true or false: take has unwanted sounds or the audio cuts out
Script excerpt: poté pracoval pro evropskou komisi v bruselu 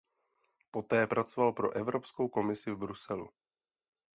false